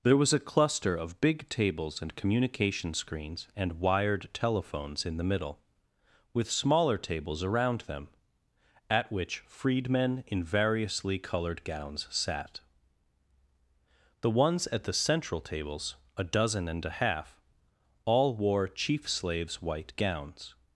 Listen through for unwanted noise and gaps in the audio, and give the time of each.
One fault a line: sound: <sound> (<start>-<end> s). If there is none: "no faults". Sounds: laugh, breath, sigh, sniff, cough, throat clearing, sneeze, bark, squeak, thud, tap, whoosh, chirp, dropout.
no faults